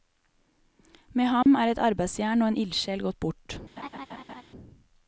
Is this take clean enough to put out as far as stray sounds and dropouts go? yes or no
no